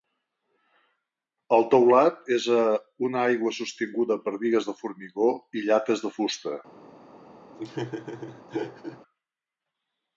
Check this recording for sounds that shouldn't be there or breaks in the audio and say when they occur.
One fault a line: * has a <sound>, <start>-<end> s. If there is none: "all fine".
* has a laugh, 7.5-9.0 s